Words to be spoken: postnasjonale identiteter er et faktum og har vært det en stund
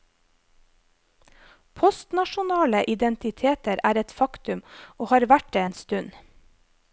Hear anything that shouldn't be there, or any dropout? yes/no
no